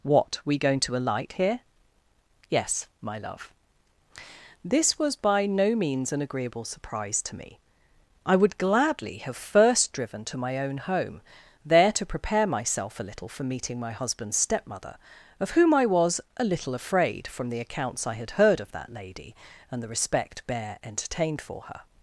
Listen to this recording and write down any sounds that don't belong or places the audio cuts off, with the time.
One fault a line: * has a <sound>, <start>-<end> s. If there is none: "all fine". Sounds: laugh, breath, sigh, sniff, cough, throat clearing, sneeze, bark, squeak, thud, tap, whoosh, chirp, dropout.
all fine